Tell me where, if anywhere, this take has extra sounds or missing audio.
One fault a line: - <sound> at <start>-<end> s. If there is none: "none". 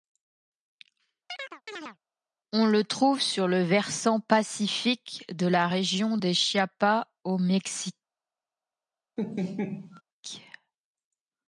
- chirp at 1.3-2.0 s
- laugh at 9.2-10.0 s